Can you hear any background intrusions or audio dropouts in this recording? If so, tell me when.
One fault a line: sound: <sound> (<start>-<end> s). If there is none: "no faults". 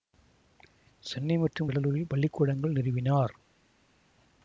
no faults